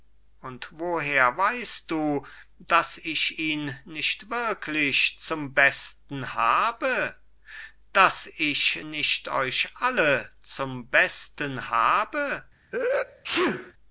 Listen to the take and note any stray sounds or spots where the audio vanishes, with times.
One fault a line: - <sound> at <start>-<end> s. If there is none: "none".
- sneeze at 12.7-13.7 s